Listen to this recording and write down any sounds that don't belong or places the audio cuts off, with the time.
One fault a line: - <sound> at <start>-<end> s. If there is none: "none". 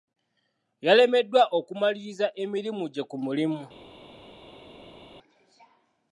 none